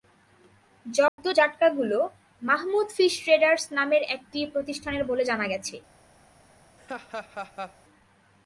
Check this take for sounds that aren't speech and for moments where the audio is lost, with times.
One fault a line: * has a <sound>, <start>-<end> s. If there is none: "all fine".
* has a dropout, 1.1-1.2 s
* has a laugh, 6.8-7.8 s